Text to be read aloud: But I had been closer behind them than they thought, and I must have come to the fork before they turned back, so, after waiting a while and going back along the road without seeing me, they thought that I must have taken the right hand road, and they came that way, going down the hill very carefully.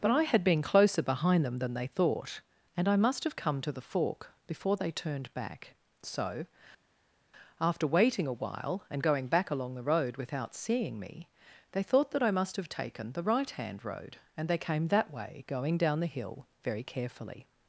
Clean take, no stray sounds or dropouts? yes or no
yes